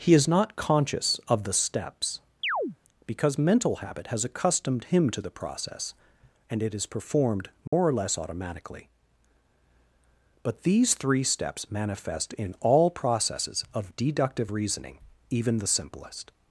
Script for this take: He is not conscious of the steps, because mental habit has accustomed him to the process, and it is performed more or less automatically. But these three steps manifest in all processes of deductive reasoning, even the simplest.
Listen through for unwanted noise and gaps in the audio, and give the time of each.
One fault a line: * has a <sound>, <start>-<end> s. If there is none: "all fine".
* has a chirp, 2.4-2.8 s
* has a dropout, 7.7-7.7 s